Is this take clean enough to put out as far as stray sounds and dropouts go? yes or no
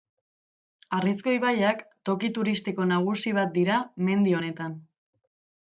yes